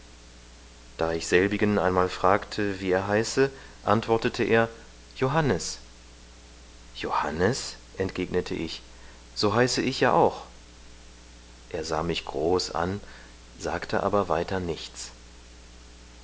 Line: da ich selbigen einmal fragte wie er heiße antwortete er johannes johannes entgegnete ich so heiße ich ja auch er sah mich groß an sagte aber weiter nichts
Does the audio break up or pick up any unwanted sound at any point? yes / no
no